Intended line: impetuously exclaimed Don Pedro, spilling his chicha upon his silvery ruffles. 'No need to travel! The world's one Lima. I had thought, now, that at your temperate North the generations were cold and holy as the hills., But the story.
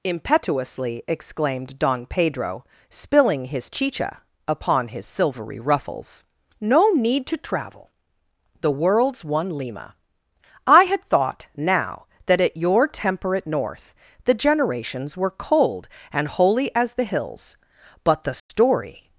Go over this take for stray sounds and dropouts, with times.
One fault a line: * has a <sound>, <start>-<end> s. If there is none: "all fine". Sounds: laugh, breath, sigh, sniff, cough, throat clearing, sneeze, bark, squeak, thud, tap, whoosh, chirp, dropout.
* has a dropout, 18.4-18.5 s